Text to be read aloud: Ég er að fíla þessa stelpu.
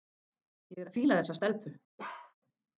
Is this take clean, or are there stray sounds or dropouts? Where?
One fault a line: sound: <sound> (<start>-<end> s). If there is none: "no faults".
sound: bark (2.0-2.3 s)